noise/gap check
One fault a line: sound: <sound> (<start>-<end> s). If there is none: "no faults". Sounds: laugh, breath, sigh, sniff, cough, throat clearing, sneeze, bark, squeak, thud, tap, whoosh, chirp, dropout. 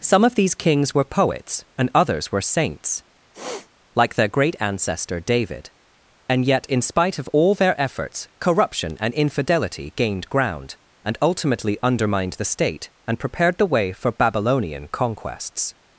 sound: sniff (3.3-3.7 s)